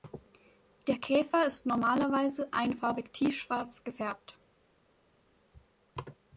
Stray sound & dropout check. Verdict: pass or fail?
pass